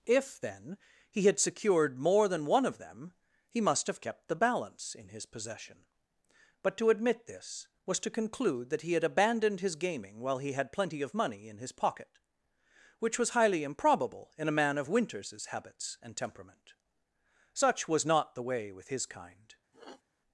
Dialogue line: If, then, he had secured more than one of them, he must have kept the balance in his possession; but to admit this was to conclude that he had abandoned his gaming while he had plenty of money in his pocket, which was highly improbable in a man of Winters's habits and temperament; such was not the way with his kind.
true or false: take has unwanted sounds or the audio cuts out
true